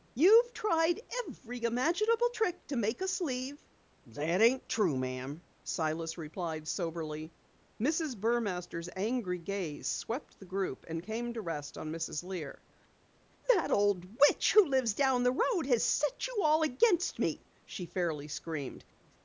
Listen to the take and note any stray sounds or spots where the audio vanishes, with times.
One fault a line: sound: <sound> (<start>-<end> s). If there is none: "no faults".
no faults